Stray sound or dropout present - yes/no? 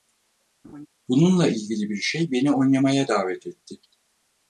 yes